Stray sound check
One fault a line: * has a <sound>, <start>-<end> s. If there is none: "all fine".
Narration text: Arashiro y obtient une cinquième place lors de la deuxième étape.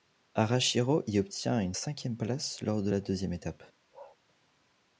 * has a bark, 3.9-4.2 s